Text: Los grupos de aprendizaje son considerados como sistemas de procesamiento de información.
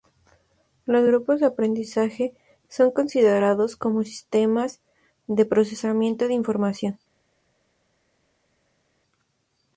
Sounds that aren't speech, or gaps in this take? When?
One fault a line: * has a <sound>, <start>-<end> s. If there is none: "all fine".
all fine